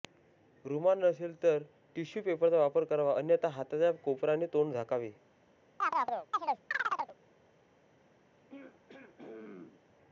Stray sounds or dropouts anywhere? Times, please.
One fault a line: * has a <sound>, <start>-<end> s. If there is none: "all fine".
* has a chirp, 5.8-7.2 s
* has a throat clearing, 8.5-9.8 s